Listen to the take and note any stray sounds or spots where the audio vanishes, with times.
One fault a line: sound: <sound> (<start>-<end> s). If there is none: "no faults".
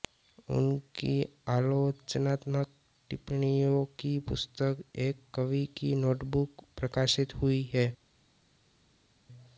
no faults